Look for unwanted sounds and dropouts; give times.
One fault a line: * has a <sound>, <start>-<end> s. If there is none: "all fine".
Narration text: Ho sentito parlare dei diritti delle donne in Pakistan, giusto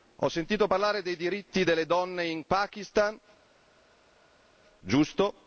all fine